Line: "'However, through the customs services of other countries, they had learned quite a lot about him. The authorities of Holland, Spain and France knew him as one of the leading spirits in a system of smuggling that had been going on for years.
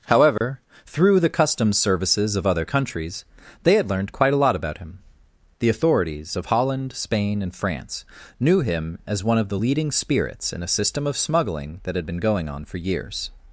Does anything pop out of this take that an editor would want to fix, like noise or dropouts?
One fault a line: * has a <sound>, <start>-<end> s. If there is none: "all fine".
* has a dropout, 0.4-0.4 s